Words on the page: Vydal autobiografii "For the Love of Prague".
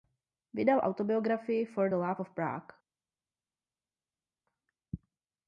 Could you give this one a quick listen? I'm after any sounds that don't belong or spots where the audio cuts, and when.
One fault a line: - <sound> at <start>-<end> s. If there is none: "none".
none